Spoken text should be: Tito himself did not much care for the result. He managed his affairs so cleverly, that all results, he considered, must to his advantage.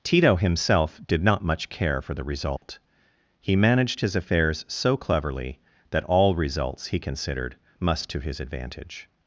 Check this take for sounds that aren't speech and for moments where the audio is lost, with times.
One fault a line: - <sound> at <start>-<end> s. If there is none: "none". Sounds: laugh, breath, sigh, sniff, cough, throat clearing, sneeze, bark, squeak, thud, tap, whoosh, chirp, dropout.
- dropout at 2.6-2.6 s